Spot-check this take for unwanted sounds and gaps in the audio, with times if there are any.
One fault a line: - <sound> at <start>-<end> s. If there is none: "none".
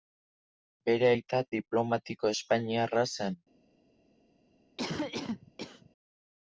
- cough at 4.8-5.9 s